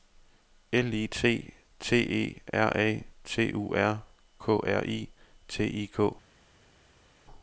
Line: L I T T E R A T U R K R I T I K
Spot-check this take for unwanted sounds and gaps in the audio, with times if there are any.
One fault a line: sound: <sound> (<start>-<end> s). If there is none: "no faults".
no faults